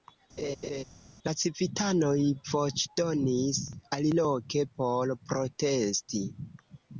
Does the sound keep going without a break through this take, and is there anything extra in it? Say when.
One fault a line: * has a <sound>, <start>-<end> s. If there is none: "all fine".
* has a laugh, 0.4-0.8 s